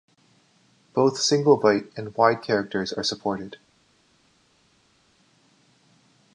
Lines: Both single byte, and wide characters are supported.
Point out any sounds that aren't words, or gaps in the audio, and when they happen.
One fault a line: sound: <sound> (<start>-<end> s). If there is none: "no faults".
no faults